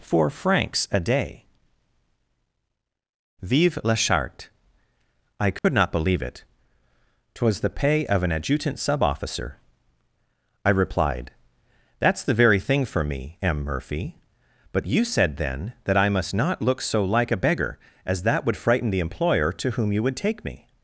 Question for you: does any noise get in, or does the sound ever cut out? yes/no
yes